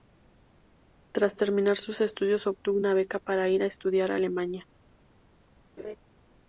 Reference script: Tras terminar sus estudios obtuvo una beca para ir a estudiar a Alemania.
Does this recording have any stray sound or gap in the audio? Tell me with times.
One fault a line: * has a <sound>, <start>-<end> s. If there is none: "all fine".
* has a laugh, 5.8-6.0 s